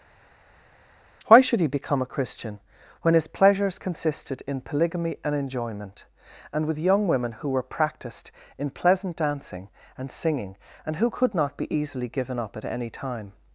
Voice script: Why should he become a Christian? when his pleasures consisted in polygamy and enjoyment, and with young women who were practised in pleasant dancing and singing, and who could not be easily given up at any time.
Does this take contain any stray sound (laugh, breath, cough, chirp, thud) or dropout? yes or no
no